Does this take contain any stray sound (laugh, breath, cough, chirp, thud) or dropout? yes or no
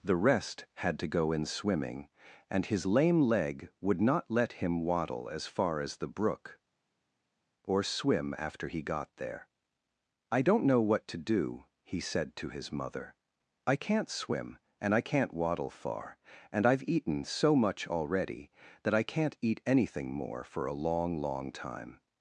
no